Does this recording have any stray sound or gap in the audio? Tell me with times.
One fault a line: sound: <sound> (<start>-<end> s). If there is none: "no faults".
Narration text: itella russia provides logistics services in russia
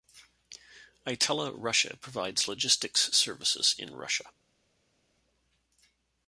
no faults